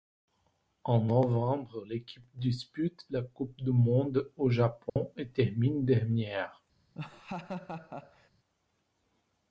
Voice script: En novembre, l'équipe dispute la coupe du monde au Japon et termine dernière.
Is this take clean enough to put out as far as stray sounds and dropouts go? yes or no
no